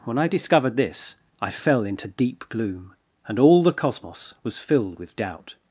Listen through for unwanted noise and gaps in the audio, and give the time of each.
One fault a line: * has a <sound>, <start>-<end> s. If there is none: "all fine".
all fine